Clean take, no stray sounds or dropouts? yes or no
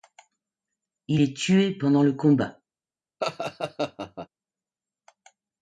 no